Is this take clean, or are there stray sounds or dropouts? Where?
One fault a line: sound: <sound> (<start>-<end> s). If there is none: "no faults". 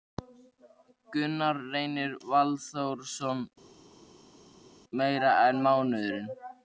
no faults